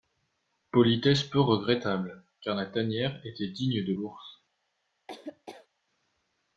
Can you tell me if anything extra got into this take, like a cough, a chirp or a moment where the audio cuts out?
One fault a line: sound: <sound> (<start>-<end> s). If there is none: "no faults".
sound: laugh (5.1-5.7 s)